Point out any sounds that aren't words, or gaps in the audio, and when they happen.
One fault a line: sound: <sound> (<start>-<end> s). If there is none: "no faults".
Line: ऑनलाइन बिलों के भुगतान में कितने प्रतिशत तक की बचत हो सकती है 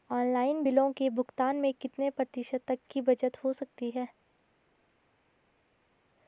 no faults